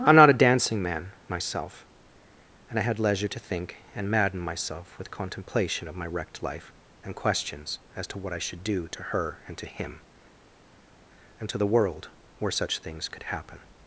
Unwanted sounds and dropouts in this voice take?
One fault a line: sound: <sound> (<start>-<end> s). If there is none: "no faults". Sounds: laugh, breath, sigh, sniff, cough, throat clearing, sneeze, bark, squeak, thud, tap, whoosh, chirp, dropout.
no faults